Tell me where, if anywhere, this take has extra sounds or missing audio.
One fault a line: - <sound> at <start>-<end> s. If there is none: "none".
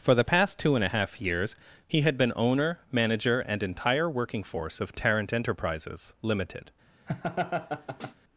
- laugh at 7.1-8.1 s